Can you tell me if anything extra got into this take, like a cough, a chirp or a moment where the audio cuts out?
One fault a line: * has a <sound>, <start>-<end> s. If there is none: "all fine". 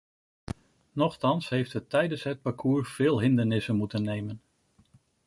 all fine